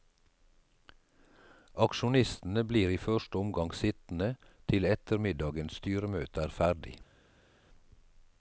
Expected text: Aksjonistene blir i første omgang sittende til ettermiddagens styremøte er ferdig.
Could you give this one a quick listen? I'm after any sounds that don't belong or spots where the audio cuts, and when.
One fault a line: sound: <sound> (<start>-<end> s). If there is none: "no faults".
no faults